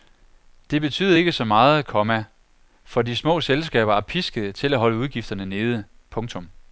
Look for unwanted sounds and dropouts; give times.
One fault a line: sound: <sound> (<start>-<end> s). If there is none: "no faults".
no faults